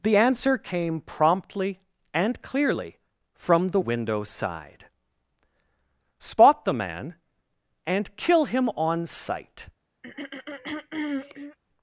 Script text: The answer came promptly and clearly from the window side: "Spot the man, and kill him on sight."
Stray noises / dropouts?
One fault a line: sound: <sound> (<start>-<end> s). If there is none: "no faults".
sound: throat clearing (10.0-11.6 s)